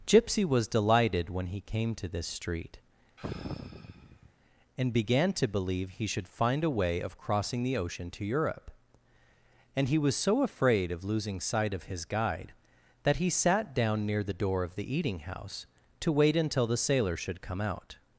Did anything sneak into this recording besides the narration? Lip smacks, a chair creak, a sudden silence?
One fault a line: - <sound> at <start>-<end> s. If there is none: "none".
- sigh at 3.2-4.3 s